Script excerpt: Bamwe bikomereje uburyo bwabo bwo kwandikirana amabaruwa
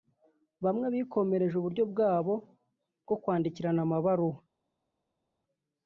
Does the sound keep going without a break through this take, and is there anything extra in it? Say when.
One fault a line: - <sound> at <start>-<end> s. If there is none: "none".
none